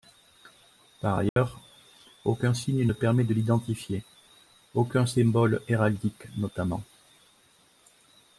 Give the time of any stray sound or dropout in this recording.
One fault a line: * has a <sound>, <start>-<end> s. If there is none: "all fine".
* has a dropout, 1.3-1.4 s